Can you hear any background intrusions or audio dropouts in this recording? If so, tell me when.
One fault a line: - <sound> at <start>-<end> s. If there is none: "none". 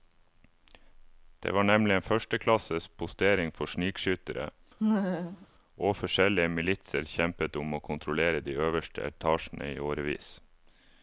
- laugh at 4.8-5.5 s